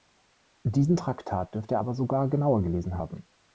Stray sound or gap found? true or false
false